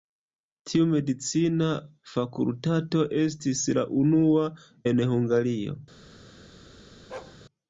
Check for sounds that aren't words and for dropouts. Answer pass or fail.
fail